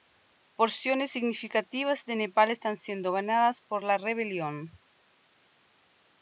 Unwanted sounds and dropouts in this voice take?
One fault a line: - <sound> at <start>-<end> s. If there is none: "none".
none